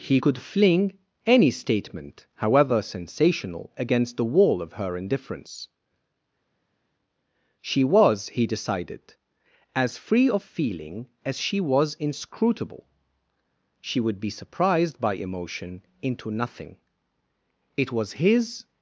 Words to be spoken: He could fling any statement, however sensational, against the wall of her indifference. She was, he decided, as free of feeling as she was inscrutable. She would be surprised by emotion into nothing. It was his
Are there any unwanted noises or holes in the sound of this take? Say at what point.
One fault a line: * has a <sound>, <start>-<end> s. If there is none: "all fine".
all fine